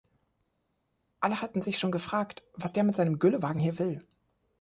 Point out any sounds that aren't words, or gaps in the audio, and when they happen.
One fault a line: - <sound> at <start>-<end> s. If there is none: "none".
none